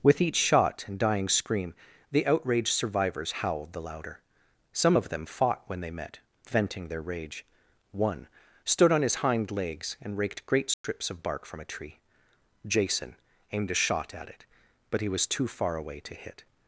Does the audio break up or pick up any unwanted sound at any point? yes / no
yes